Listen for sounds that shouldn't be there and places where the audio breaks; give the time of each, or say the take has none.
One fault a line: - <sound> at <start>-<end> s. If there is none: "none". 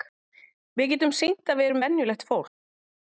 none